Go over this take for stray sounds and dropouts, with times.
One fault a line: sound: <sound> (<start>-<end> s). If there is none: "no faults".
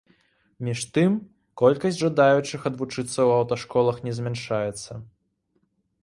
no faults